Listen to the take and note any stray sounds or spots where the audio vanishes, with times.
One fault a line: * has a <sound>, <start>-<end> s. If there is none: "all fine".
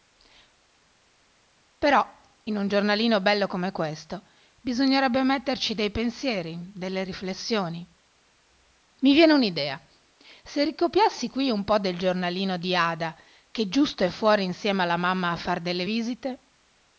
all fine